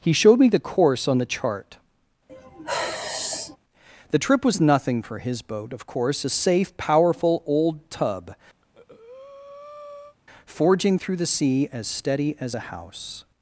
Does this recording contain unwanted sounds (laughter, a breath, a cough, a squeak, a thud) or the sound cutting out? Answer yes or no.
yes